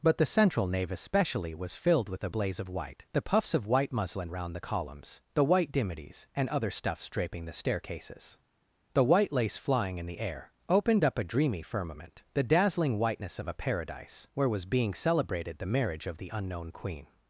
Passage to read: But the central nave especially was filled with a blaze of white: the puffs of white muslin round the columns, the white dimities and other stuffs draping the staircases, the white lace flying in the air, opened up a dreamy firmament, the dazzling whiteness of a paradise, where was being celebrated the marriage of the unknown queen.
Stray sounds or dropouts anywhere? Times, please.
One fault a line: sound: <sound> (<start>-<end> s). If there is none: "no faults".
no faults